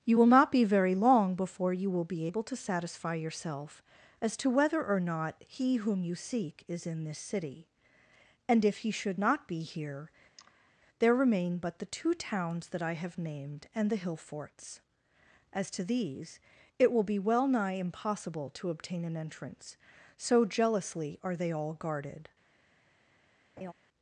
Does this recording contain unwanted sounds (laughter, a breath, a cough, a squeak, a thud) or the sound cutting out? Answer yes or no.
yes